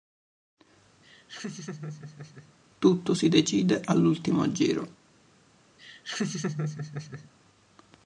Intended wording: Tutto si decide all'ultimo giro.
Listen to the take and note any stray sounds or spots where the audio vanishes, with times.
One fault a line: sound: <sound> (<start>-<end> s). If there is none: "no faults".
sound: laugh (1.0-2.5 s)
sound: laugh (5.8-7.3 s)